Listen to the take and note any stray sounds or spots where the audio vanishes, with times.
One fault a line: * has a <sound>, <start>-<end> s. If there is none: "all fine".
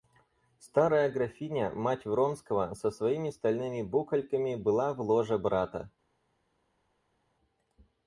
all fine